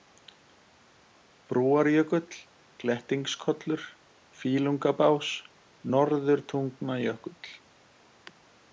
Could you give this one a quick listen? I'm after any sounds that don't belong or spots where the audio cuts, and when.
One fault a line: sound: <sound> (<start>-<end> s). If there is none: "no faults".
no faults